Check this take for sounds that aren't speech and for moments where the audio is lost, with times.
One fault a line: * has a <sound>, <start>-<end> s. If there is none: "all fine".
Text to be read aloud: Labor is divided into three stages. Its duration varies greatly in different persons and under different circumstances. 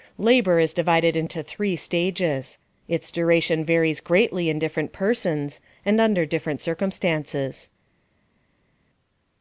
all fine